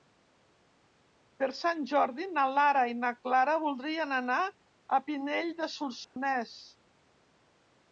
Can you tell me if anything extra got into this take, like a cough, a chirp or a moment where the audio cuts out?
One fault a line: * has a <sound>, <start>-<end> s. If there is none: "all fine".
* has a dropout, 6.0-6.2 s